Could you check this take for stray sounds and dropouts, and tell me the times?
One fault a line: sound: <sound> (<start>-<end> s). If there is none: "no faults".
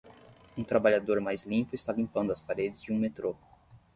no faults